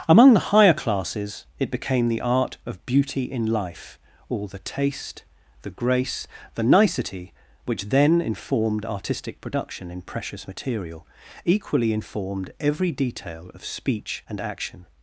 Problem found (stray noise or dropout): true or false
false